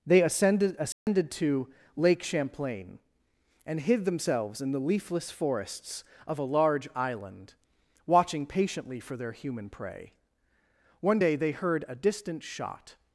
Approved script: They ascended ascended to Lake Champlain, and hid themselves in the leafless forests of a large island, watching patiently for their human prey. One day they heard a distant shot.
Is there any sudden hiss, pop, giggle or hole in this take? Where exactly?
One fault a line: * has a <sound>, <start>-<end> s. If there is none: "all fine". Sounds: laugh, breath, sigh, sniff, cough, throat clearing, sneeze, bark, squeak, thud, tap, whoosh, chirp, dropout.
* has a dropout, 0.9-1.1 s